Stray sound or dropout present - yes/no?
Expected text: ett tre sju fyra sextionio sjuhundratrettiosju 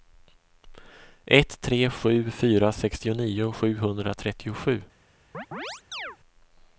yes